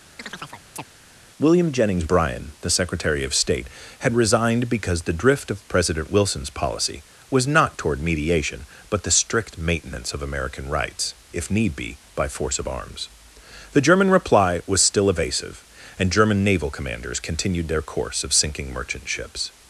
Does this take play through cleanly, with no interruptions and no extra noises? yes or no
no